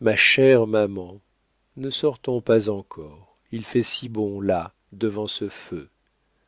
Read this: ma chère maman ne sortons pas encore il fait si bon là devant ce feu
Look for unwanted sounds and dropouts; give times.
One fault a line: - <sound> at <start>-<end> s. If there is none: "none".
none